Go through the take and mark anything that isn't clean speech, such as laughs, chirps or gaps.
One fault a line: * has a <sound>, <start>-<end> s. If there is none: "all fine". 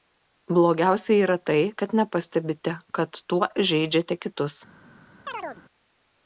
* has a chirp, 5.3-5.6 s